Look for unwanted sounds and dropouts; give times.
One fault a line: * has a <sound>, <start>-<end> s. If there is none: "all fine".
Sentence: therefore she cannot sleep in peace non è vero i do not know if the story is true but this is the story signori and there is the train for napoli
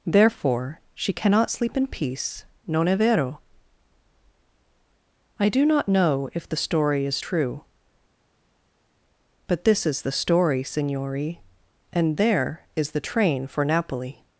all fine